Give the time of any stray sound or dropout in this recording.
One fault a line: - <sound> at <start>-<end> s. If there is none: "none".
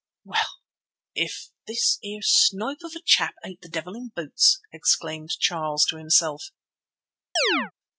- chirp at 7.4-7.7 s